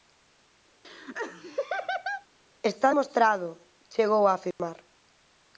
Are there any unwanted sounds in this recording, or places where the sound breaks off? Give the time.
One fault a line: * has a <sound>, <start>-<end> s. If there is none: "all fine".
* has a laugh, 0.8-2.3 s
* has a dropout, 4.5-4.6 s